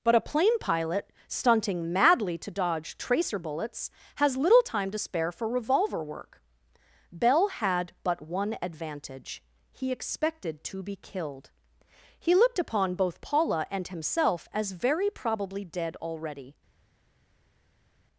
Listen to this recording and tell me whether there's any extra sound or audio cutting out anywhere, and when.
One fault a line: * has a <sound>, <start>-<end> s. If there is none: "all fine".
all fine